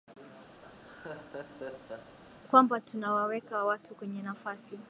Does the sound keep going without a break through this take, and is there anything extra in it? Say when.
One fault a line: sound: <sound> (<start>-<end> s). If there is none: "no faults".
sound: laugh (0.6-2.2 s)